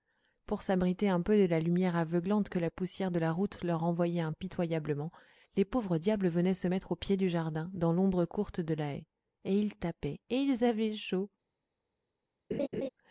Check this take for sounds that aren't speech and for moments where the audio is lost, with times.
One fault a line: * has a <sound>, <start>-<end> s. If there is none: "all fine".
* has a laugh, 12.5-12.9 s